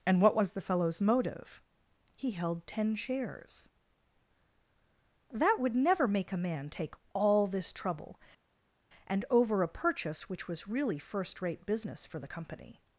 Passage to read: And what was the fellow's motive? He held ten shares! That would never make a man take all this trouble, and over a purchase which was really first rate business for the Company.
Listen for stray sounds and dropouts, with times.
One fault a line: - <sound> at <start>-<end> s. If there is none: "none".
none